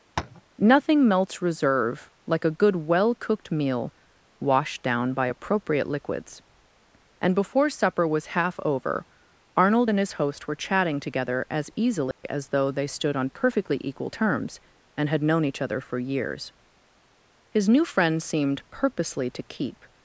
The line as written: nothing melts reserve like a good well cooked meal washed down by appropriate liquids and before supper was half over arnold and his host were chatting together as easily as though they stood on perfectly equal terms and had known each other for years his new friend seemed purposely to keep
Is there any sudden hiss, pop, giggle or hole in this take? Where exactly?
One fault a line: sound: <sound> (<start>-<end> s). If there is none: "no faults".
sound: tap (0.2-0.4 s)
sound: dropout (12.1-12.2 s)